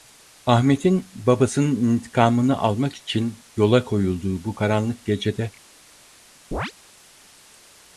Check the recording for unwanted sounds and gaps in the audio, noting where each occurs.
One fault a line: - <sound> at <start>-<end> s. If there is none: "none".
- chirp at 6.5-6.7 s